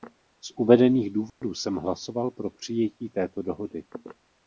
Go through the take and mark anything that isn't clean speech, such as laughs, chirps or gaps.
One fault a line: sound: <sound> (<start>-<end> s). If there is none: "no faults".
sound: dropout (1.3-1.4 s)